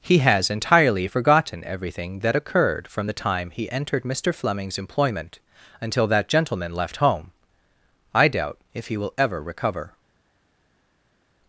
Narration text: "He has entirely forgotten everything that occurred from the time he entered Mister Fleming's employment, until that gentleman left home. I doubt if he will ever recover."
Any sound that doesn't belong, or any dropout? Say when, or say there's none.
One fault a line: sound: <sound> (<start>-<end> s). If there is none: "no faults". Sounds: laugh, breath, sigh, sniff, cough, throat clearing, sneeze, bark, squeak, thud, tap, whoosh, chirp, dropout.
no faults